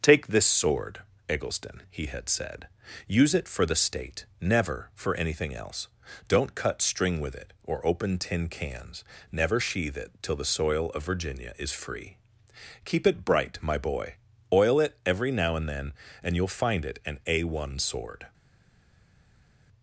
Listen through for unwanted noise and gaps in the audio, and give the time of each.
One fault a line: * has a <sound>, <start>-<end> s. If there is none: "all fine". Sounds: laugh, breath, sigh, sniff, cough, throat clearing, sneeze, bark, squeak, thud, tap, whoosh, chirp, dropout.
all fine